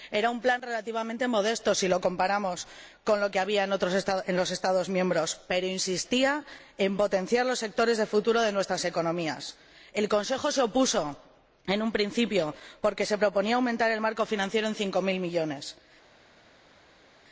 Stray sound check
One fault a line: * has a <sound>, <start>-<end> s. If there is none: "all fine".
all fine